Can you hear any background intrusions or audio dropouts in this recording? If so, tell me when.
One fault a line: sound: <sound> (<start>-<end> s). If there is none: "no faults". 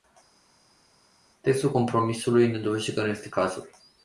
no faults